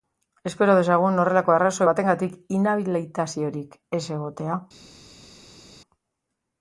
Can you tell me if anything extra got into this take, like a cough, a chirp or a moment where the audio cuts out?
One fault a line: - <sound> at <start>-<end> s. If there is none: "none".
none